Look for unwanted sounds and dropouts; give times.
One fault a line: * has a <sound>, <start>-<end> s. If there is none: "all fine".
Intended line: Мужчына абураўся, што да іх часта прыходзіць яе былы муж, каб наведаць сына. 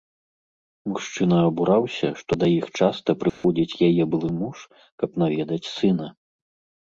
* has a dropout, 3.3-3.4 s